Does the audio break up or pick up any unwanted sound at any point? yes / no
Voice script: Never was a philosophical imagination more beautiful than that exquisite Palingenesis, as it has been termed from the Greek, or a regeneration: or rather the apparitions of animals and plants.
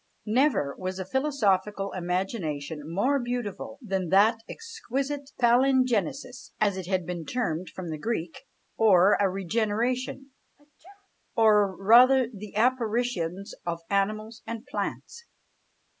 yes